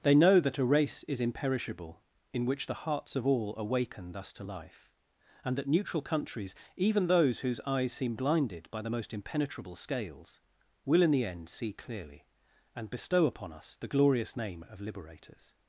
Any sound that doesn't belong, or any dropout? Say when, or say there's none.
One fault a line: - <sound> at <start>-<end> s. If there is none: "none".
none